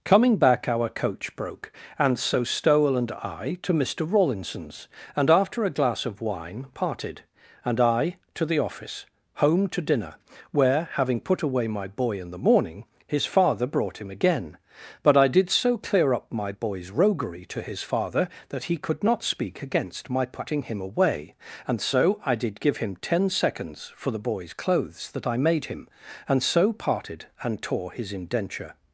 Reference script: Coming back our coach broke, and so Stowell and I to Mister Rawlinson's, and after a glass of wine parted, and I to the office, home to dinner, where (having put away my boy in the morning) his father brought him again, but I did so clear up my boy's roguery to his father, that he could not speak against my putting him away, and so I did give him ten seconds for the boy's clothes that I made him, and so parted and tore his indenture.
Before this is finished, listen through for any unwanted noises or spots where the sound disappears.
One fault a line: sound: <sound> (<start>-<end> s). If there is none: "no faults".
no faults